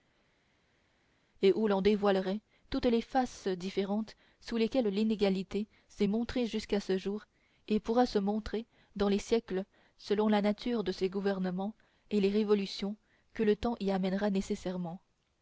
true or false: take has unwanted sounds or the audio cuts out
false